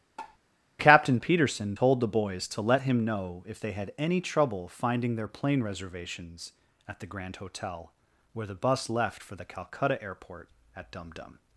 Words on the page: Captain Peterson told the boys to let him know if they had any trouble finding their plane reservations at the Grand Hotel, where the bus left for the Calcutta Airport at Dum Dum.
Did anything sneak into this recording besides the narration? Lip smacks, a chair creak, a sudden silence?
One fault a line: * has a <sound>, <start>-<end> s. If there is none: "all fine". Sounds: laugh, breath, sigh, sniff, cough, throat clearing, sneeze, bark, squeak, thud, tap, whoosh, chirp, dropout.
* has a tap, 0.2-0.4 s